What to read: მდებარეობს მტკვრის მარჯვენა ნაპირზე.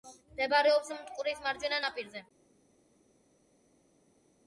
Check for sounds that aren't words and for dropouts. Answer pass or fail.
pass